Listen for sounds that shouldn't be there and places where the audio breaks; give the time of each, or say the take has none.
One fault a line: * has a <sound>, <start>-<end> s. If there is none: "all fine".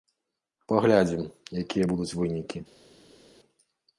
all fine